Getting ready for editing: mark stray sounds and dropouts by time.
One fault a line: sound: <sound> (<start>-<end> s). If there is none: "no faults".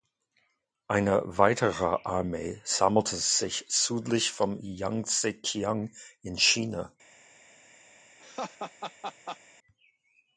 sound: laugh (8.2-9.4 s)